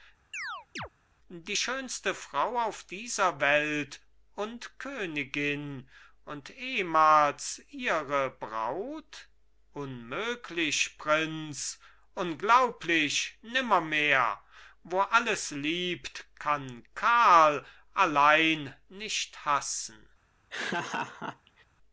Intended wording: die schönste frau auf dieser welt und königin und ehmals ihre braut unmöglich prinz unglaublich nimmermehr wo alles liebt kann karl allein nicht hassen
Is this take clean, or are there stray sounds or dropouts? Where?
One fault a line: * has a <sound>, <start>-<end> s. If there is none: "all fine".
* has a chirp, 0.3-0.9 s
* has a laugh, 20.5-21.6 s